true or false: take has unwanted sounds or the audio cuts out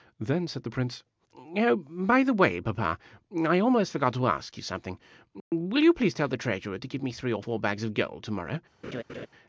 true